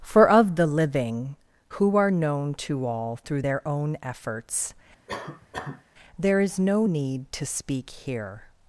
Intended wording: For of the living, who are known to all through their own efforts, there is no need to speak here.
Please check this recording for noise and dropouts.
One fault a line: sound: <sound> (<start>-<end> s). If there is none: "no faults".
sound: cough (5.1-5.8 s)